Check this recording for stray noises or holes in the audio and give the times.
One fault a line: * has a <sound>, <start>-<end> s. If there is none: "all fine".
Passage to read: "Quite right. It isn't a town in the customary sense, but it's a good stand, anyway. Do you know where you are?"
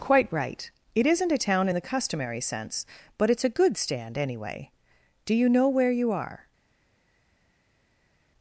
all fine